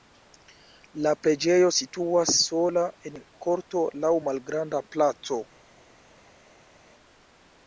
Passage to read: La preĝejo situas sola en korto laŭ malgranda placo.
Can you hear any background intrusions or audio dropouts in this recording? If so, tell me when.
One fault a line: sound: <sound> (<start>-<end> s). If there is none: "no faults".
no faults